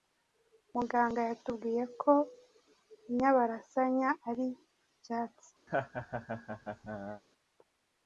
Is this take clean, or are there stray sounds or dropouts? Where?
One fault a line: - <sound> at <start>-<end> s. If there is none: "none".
- laugh at 5.7-7.2 s